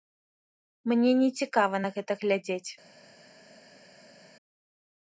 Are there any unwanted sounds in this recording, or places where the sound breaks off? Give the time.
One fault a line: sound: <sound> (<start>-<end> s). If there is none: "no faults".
no faults